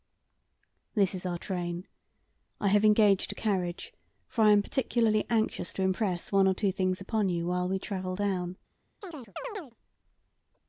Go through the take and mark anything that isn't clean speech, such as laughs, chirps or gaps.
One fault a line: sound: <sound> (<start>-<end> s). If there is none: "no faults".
sound: chirp (9.0-9.8 s)